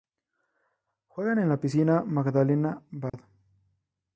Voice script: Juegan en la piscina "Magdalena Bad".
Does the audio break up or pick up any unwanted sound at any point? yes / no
yes